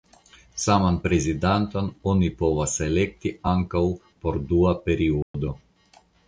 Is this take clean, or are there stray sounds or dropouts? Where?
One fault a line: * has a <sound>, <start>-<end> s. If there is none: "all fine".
* has a dropout, 5.2-5.3 s